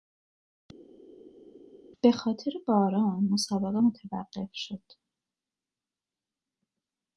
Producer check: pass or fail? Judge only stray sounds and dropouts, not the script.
pass